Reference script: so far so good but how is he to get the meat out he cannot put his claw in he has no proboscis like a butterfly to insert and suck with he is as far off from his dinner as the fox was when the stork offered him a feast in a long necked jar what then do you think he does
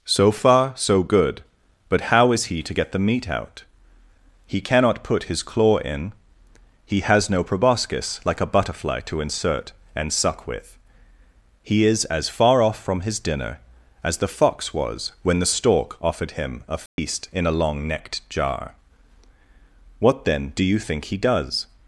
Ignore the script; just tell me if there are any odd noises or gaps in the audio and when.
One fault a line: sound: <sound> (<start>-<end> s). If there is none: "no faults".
sound: dropout (16.9-17.0 s)